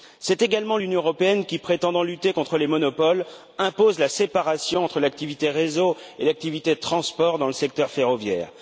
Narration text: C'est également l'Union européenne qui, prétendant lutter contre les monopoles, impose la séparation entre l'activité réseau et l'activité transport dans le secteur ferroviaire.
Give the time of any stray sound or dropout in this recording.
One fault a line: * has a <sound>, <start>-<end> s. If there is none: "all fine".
all fine